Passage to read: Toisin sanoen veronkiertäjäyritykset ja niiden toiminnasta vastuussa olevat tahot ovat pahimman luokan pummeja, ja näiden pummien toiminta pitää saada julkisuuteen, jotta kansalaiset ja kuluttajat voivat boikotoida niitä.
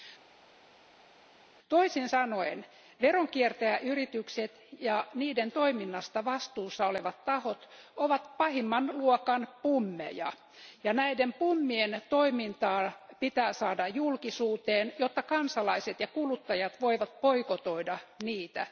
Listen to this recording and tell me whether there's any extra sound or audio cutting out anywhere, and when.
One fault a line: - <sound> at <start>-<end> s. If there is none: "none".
none